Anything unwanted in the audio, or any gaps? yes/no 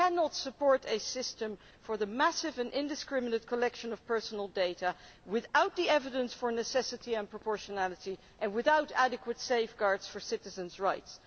no